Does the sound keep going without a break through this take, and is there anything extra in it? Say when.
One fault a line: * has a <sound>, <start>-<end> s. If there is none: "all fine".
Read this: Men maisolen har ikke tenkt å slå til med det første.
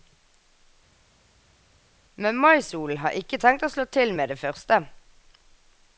all fine